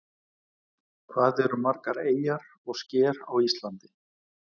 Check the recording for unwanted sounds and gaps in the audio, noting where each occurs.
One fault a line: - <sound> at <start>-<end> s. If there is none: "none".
none